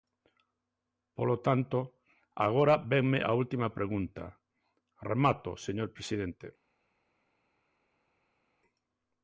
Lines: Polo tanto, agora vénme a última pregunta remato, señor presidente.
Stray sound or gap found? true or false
false